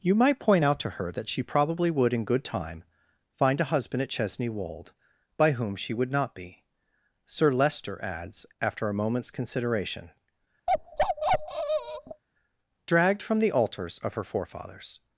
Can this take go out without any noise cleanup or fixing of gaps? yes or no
no